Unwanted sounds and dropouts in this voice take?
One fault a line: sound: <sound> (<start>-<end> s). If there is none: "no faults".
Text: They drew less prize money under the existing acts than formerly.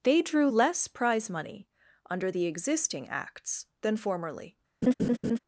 sound: laugh (4.8-5.4 s)